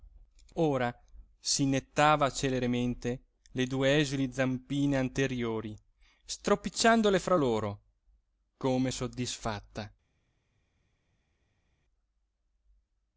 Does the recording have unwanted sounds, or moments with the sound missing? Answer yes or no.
no